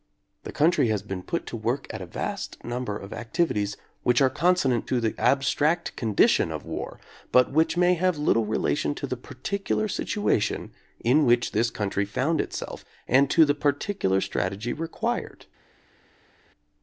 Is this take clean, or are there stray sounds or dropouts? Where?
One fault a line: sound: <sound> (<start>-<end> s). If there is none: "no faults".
no faults